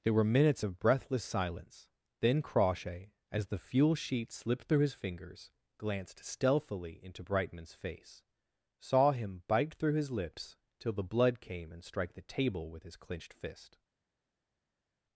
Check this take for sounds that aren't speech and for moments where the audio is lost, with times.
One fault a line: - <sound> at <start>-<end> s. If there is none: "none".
none